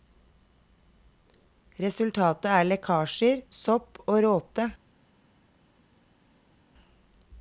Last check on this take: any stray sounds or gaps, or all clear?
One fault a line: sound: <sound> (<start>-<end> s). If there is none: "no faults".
no faults